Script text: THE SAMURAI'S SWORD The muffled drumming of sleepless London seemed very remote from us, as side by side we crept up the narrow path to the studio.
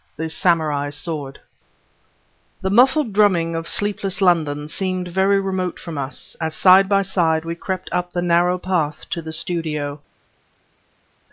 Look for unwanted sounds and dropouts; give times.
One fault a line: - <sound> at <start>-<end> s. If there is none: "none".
none